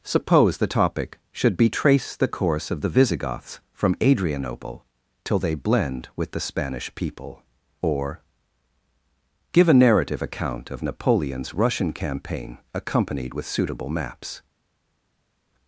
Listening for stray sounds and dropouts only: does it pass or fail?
pass